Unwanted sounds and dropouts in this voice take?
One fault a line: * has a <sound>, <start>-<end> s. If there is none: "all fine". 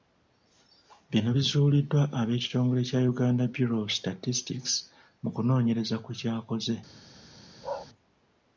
* has a bark, 7.6-7.9 s